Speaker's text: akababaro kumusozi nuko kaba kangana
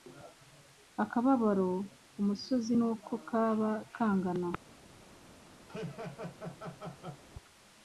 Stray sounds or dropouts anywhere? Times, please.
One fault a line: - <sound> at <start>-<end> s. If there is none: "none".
- laugh at 5.7-7.2 s